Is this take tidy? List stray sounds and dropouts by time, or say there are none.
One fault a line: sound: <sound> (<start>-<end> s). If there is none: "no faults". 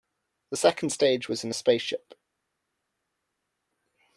no faults